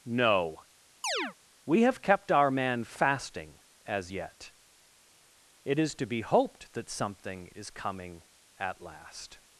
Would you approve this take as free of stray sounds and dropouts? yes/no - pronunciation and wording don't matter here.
no